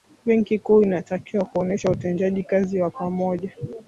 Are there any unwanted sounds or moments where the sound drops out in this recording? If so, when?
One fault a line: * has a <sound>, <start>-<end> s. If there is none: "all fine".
all fine